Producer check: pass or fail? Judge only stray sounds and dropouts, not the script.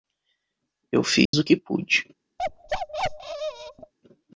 fail